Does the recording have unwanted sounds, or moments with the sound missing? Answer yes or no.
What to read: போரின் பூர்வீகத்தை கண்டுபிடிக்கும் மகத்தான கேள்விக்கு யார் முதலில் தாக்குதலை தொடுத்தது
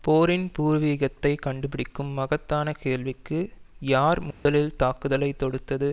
yes